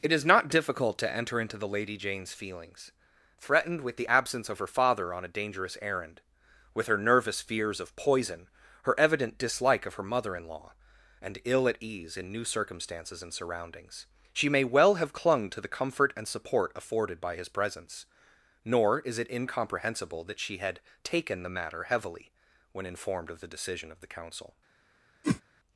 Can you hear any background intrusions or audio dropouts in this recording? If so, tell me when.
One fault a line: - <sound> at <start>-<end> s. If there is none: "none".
- whoosh at 25.2-25.4 s